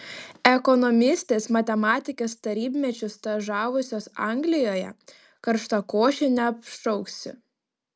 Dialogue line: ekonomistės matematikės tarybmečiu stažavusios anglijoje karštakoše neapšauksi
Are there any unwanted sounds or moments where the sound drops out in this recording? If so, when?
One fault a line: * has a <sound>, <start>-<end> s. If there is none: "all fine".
all fine